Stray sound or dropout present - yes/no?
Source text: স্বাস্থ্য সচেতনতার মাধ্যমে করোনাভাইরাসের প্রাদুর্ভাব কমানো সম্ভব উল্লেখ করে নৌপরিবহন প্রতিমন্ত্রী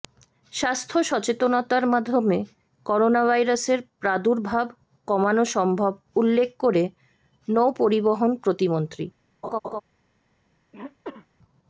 yes